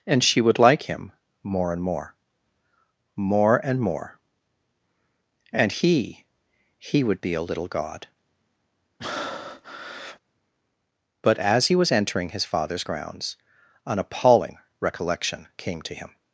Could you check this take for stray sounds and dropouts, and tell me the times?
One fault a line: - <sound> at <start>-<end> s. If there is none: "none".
- breath at 9.0-10.2 s